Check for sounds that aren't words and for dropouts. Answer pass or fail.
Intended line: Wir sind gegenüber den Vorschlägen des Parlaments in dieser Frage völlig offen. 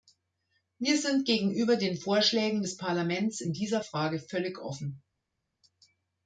pass